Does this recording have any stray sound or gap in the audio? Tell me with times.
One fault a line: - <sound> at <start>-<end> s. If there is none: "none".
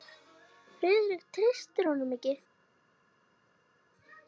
none